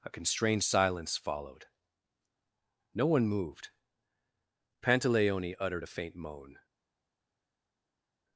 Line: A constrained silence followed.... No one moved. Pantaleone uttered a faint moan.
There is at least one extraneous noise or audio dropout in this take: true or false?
false